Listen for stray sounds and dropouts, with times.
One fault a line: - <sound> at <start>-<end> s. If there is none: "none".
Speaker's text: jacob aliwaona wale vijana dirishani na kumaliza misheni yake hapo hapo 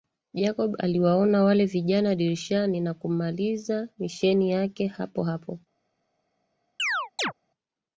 - chirp at 6.8-7.3 s